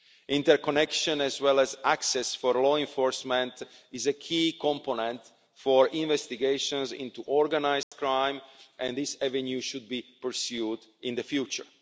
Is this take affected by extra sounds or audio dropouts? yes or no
yes